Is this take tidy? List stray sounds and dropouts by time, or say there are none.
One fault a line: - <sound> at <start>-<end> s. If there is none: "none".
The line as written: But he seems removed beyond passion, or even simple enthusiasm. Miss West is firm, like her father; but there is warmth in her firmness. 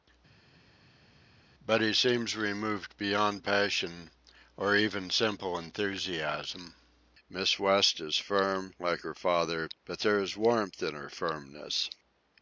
none